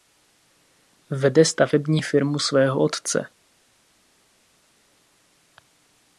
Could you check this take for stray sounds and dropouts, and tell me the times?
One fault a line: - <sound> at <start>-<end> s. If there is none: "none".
none